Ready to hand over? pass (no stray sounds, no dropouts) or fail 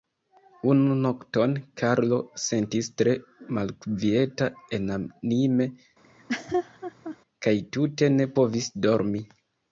fail